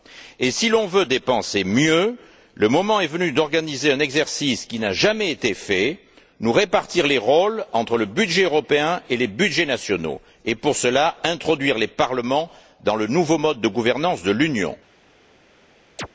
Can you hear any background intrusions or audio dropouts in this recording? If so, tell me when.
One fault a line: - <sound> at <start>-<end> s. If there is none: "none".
- chirp at 16.0-16.1 s